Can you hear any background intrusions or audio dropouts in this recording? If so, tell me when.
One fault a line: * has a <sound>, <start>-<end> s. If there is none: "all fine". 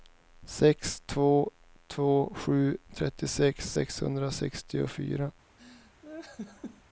* has a laugh, 5.6-6.8 s